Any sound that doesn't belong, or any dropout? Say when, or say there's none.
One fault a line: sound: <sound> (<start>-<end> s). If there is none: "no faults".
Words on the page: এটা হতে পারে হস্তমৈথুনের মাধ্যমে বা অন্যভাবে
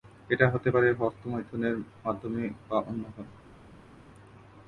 no faults